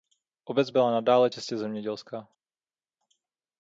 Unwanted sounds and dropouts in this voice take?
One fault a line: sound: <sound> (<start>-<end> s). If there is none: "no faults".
no faults